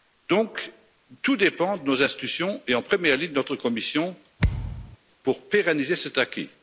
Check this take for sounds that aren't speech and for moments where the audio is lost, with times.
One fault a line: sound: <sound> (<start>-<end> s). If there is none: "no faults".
sound: thud (4.4-5.0 s)